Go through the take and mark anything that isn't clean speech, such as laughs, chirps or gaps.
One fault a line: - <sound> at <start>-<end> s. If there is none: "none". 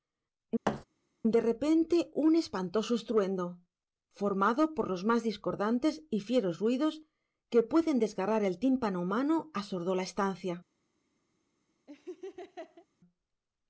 - thud at 0.6-0.8 s
- laugh at 11.9-12.9 s